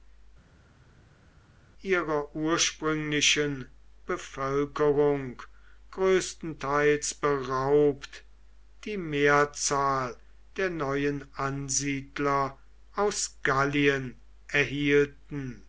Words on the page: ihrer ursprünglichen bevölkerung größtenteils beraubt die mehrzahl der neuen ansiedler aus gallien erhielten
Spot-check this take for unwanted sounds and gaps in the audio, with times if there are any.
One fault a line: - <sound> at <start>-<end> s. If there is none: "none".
none